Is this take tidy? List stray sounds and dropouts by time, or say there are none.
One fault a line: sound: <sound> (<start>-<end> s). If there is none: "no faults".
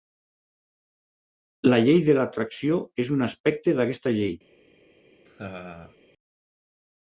sound: laugh (5.3-6.0 s)